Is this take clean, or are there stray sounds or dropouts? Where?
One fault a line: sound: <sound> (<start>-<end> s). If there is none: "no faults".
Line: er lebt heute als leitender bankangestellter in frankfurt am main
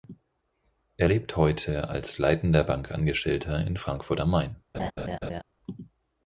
sound: laugh (4.7-5.4 s)